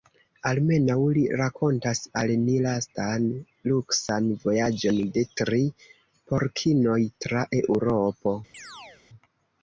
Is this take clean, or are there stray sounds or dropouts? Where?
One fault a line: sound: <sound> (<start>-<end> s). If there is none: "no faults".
sound: chirp (8.5-9.0 s)